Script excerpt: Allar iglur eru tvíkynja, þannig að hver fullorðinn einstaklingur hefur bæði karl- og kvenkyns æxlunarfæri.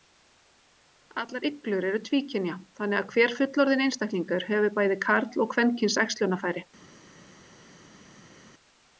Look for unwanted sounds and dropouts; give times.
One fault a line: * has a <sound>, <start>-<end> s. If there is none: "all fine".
all fine